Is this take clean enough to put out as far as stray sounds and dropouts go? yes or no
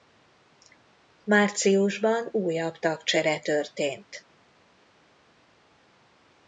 yes